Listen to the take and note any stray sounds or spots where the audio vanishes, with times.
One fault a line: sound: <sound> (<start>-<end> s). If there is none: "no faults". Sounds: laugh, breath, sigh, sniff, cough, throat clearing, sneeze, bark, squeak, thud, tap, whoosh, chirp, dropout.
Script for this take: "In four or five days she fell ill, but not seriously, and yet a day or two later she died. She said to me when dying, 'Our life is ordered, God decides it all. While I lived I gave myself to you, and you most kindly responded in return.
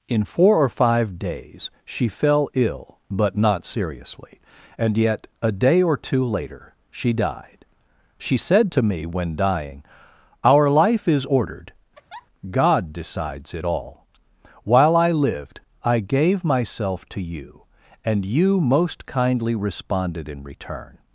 sound: laugh (11.9-12.3 s)